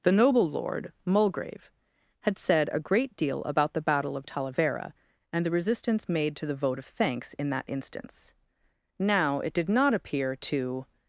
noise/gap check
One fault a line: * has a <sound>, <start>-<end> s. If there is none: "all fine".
all fine